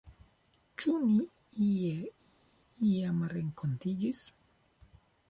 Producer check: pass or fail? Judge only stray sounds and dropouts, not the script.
pass